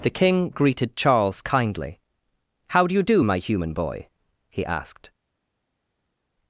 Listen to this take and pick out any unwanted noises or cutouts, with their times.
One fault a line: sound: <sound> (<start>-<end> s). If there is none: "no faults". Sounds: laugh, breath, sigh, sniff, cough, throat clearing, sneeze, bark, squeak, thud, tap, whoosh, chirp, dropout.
no faults